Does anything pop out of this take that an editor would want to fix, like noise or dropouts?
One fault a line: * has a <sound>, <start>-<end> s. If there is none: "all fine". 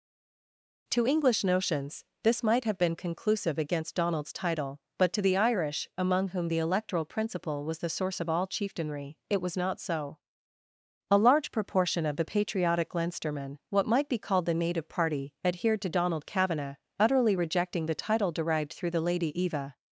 all fine